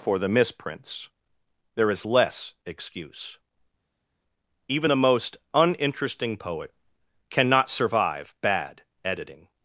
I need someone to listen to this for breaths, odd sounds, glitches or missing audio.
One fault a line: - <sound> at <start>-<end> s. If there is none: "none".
none